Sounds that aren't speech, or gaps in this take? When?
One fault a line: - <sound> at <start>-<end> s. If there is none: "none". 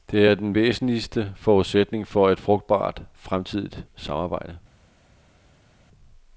none